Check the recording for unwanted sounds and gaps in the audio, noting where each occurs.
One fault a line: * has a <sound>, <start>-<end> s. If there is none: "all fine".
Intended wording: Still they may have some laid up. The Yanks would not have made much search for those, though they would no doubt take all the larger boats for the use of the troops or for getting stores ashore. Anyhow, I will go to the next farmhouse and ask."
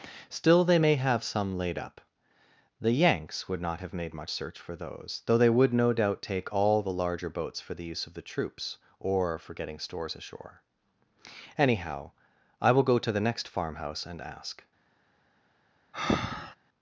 * has a breath, 15.9-16.6 s